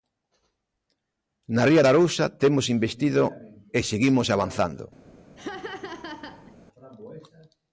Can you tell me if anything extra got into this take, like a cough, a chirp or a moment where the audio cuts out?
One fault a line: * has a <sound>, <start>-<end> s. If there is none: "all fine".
* has a laugh, 5.4-6.5 s